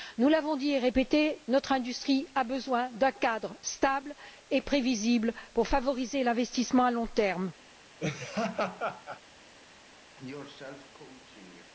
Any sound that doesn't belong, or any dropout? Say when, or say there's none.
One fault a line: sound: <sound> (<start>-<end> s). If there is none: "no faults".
sound: laugh (8.0-9.2 s)
sound: cough (10.2-11.7 s)